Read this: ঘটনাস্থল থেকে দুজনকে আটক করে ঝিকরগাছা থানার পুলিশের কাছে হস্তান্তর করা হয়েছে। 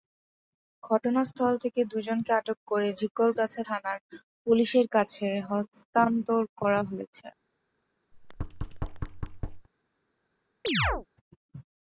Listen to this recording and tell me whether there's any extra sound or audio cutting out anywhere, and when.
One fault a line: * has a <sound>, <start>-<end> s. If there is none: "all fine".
* has a thud, 8.1-9.7 s
* has a chirp, 10.6-11.1 s